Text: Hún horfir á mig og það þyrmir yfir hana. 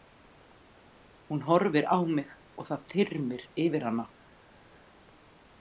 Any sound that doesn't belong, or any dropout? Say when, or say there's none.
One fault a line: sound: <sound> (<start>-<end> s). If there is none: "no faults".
no faults